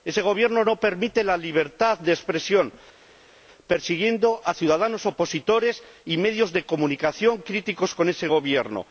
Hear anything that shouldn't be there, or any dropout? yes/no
no